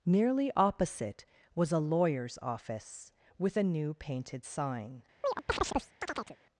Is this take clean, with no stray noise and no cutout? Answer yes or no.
no